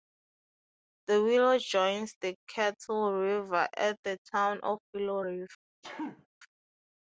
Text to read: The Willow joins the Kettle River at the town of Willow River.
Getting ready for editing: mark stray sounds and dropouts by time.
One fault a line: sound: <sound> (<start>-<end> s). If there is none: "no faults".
sound: sneeze (5.8-6.3 s)